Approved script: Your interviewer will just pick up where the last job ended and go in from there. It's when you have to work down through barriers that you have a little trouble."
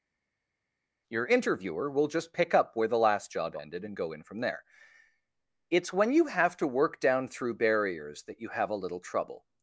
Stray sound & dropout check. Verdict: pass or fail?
pass